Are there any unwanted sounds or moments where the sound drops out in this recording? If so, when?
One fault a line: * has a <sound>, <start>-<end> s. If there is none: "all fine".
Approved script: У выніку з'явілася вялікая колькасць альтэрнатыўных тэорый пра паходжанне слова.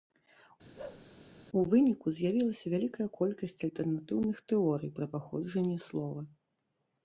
* has a bark, 0.8-1.1 s